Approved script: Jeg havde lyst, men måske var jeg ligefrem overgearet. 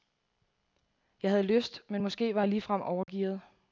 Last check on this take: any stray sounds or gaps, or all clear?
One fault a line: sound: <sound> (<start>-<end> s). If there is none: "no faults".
sound: dropout (3.0-3.1 s)